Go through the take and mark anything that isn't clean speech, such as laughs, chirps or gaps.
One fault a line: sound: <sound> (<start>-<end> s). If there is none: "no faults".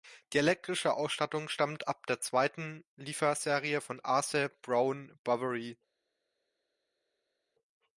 no faults